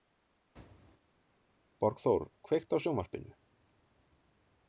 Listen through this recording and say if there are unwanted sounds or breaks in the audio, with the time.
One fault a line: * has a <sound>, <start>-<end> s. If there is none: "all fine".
all fine